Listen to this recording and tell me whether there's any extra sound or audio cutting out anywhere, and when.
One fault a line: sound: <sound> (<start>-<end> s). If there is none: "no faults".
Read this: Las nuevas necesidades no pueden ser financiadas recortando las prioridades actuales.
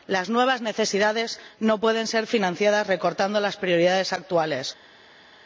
no faults